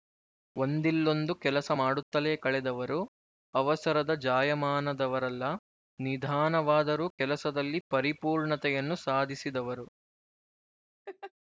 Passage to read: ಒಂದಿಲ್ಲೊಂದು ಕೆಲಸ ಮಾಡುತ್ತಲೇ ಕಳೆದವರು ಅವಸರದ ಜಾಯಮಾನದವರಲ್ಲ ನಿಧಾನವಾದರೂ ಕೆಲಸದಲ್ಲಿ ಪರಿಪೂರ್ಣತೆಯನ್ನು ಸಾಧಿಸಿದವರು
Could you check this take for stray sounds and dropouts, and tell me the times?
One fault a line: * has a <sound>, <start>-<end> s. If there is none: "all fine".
* has a laugh, 11.1-11.3 s